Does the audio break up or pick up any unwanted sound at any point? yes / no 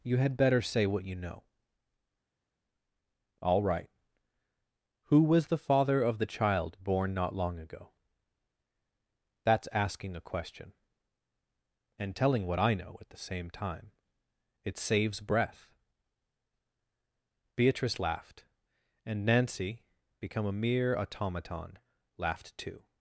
no